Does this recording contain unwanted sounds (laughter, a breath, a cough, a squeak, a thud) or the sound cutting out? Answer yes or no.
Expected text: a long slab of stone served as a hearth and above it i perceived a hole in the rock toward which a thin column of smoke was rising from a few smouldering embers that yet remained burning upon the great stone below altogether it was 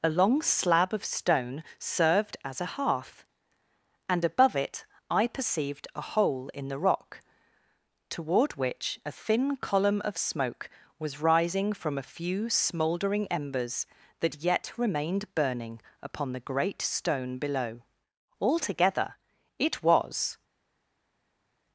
no